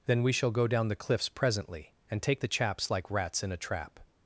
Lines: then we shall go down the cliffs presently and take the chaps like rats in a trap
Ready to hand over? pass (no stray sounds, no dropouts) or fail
pass